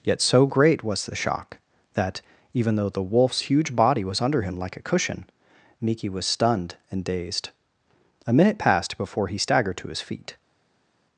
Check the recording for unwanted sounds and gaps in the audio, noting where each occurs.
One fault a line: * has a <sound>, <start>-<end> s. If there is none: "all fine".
all fine